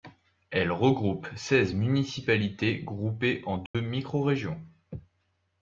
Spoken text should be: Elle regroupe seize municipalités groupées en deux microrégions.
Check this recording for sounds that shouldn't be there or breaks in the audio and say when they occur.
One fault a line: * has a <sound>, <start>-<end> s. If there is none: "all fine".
* has a dropout, 3.7-3.7 s